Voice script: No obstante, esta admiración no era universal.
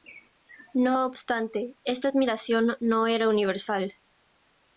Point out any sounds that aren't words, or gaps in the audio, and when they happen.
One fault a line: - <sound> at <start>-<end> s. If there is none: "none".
none